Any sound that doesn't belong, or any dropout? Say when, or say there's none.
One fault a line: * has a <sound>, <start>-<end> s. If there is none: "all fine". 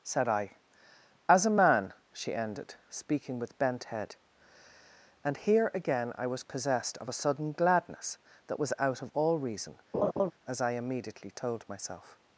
* has a laugh, 9.9-10.3 s